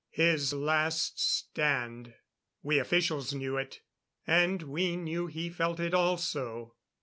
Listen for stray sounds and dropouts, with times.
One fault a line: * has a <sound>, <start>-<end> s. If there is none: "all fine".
all fine